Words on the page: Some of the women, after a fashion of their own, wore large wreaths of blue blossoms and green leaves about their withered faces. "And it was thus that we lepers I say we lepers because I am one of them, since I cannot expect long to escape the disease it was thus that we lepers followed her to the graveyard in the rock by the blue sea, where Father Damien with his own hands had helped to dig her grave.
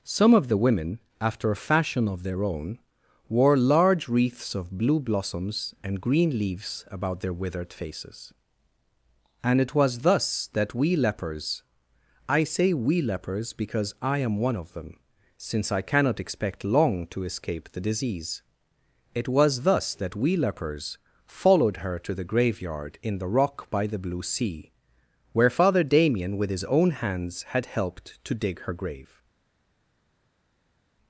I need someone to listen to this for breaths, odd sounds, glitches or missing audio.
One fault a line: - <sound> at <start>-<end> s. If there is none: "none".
none